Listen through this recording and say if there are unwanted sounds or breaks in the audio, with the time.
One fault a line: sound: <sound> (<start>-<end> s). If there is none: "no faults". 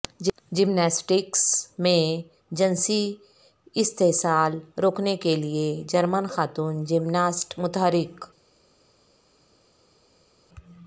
no faults